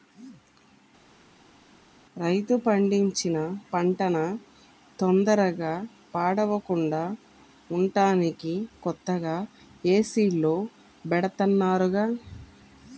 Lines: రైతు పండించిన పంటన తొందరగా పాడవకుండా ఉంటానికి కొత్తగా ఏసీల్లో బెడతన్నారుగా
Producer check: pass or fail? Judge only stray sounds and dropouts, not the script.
pass